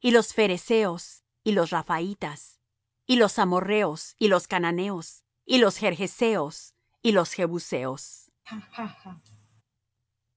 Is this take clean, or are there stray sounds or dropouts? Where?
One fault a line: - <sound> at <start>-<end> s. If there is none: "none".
- laugh at 8.5-9.6 s